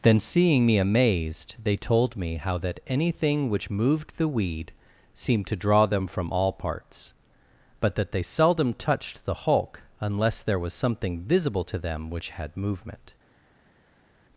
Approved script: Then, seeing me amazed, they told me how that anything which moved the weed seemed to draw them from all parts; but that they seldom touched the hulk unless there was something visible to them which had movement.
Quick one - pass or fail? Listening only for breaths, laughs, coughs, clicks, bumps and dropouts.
pass